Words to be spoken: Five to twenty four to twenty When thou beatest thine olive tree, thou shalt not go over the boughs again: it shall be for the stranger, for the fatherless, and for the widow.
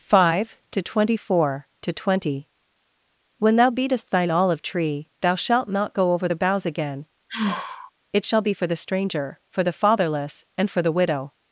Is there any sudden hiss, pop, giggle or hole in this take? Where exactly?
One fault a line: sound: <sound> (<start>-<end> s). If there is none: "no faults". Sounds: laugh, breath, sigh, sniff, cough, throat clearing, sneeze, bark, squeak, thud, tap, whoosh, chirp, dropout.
sound: sigh (7.3-7.9 s)